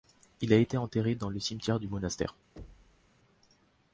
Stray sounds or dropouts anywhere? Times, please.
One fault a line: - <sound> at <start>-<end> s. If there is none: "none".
- thud at 2.6-3.1 s